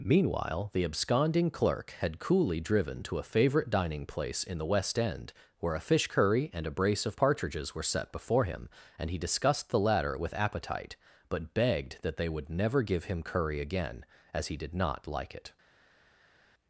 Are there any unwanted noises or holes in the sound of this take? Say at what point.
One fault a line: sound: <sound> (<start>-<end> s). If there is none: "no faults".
no faults